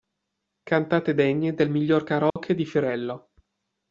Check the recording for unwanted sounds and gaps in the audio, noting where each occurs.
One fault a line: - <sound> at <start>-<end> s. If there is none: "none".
- dropout at 2.3-2.4 s